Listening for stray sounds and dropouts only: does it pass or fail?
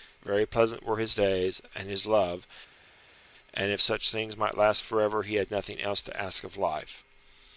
pass